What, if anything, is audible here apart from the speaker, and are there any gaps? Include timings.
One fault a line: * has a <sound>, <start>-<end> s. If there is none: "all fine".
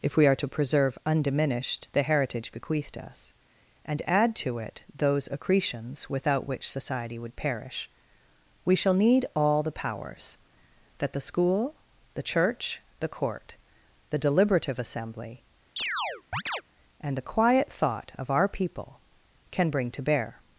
* has a chirp, 15.8-16.6 s